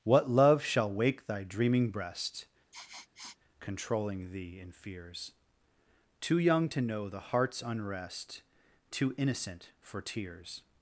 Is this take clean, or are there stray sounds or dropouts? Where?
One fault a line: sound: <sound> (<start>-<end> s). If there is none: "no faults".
sound: sniff (2.7-3.4 s)